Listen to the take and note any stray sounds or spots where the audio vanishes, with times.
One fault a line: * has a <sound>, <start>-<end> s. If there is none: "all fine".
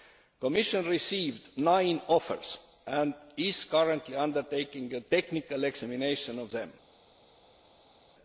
all fine